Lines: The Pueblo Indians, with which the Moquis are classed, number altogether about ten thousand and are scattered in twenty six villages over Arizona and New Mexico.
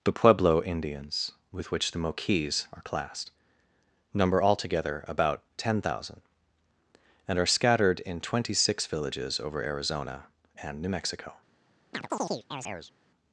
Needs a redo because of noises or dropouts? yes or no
yes